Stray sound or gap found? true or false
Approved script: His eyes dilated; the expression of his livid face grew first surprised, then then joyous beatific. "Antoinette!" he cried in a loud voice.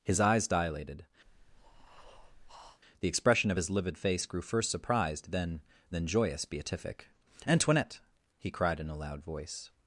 true